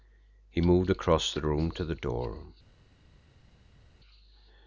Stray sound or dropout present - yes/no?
no